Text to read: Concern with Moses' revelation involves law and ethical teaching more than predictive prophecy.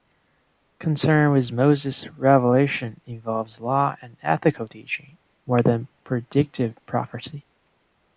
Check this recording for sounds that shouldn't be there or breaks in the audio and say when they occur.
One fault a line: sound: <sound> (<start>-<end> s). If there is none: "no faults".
no faults